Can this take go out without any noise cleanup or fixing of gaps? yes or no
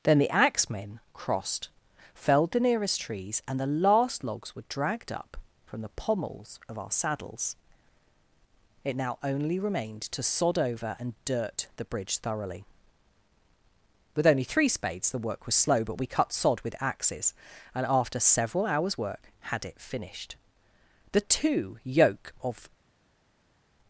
yes